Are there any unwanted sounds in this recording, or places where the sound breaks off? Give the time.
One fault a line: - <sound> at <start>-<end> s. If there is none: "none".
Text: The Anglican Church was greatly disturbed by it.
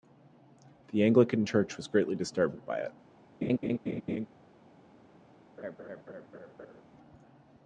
- laugh at 3.4-4.3 s
- laugh at 5.6-6.8 s